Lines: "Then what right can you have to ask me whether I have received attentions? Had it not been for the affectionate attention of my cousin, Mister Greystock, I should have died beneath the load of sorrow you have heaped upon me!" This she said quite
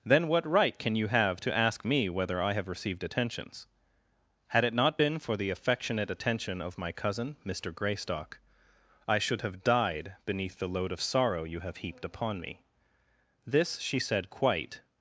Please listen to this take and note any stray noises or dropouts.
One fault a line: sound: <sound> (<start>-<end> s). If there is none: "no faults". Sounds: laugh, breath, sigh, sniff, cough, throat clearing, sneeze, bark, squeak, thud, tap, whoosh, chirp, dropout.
no faults